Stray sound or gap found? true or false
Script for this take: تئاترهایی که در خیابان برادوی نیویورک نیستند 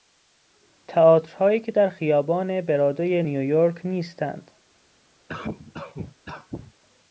true